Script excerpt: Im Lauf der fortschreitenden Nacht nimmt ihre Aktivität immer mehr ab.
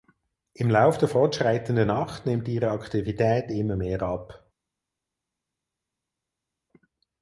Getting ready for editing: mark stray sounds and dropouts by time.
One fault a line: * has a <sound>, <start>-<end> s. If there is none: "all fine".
all fine